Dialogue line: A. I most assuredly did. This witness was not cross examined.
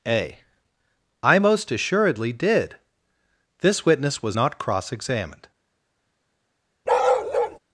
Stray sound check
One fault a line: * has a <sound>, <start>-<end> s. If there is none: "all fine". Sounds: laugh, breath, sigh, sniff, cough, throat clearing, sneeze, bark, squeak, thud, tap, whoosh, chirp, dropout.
* has a bark, 6.9-7.6 s